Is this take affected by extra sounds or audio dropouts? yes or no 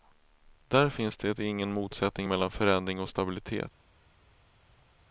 no